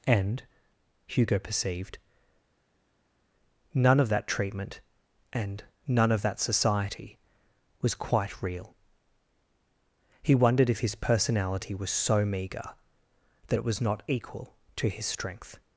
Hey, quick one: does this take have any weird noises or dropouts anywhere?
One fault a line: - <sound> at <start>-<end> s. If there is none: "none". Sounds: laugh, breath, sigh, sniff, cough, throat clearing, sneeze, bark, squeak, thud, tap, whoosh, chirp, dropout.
none